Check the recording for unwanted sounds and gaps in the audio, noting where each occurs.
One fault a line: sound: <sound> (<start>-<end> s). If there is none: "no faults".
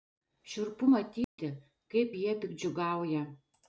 sound: dropout (1.2-1.4 s)